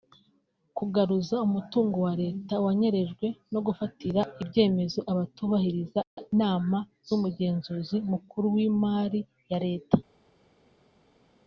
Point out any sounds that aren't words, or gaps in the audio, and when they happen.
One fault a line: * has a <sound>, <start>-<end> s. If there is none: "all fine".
all fine